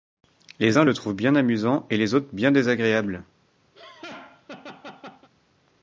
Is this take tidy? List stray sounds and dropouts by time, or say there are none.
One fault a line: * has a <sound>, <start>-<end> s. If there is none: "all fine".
* has a laugh, 3.7-5.3 s